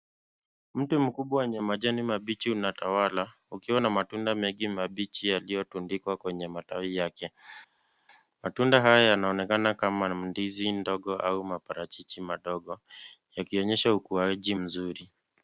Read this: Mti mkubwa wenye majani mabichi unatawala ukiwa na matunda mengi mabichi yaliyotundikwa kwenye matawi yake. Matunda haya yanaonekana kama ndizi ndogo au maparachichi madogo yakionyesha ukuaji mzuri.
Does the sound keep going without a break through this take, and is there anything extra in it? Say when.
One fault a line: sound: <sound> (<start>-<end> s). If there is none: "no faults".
no faults